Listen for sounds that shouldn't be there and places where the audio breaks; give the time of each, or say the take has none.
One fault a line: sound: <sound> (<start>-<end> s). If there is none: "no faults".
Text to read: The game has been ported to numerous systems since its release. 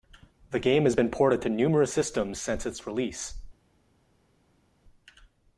no faults